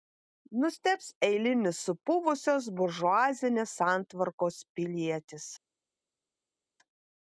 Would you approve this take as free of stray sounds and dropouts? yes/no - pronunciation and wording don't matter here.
yes